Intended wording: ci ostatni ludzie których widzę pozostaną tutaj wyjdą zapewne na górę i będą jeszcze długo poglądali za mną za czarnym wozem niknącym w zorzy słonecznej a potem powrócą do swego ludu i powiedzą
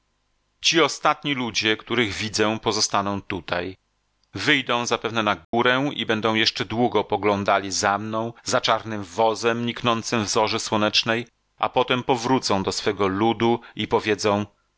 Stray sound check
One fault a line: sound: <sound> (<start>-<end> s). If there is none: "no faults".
sound: dropout (5.4-5.5 s)